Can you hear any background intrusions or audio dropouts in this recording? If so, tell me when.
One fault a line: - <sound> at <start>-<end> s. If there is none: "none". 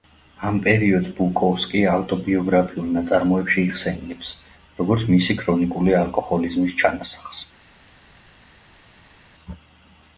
none